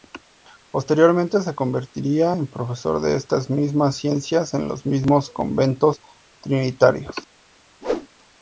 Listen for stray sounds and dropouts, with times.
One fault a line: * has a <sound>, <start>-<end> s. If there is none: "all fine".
* has a whoosh, 7.8-8.1 s